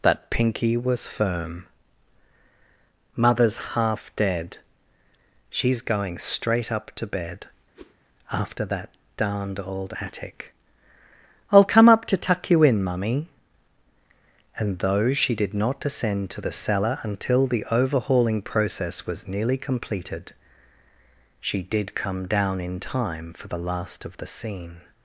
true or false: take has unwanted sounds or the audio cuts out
true